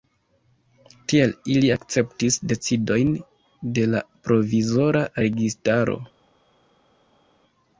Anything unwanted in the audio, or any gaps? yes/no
no